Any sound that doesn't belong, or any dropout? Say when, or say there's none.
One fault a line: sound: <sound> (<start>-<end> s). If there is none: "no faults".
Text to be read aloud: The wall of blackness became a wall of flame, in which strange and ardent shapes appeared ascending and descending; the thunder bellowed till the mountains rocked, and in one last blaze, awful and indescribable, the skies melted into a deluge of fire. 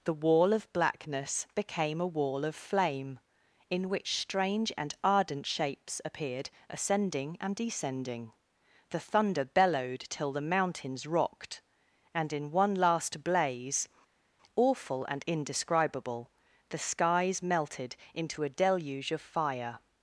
no faults